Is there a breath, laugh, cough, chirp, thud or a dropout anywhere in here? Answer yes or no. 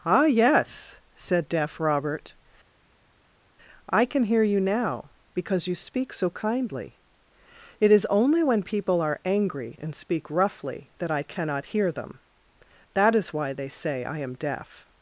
no